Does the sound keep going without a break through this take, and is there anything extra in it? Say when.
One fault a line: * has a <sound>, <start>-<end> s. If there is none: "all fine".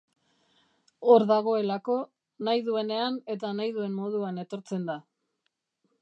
all fine